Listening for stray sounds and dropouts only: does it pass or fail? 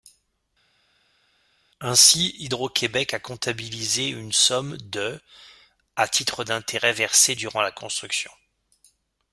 pass